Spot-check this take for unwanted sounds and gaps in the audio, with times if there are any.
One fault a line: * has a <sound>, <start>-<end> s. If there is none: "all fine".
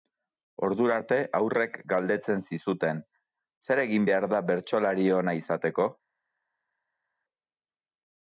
all fine